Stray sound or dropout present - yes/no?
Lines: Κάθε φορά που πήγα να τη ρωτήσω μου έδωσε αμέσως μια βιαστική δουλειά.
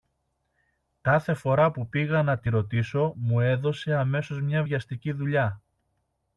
no